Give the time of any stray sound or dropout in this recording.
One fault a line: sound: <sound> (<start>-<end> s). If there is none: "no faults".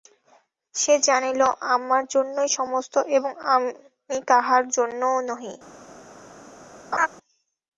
sound: laugh (6.9-7.1 s)